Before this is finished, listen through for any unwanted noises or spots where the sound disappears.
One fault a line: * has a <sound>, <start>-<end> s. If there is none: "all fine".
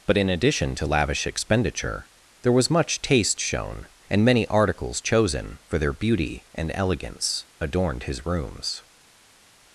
all fine